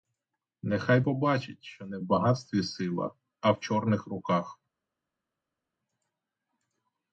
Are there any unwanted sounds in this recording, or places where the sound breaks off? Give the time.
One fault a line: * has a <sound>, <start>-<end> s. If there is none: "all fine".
all fine